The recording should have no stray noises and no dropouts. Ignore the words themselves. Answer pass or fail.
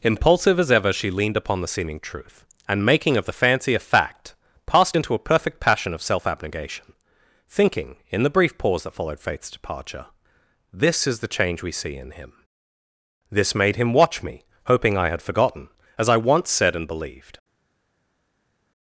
pass